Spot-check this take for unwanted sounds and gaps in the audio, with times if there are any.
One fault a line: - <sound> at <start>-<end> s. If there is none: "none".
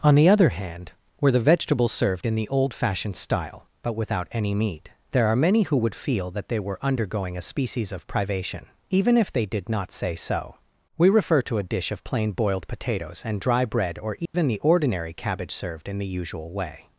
- dropout at 14.3-14.3 s